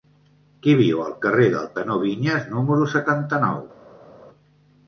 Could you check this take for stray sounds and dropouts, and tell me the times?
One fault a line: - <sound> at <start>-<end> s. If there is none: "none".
none